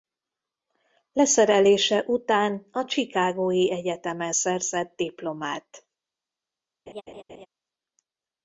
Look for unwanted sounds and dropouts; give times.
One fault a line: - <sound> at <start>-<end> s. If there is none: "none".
- laugh at 6.9-7.5 s